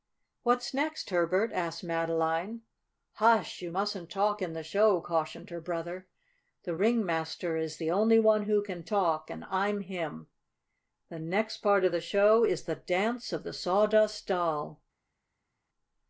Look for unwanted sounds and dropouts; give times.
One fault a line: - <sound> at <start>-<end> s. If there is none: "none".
none